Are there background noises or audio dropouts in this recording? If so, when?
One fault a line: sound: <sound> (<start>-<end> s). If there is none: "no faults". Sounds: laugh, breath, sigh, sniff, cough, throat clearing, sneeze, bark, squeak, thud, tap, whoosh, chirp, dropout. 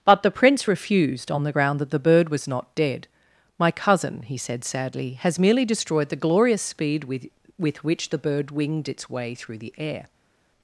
no faults